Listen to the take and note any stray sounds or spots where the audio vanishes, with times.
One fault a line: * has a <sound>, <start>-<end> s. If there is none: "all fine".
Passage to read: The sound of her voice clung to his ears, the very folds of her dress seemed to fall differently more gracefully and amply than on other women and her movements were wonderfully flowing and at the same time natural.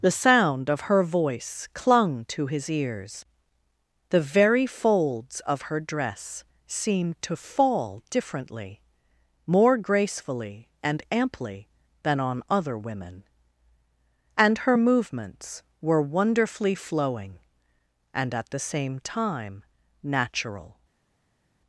all fine